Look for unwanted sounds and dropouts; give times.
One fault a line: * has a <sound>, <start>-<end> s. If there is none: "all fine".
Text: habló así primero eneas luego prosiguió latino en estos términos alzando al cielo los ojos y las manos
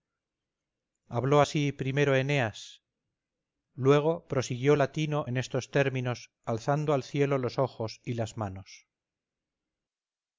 all fine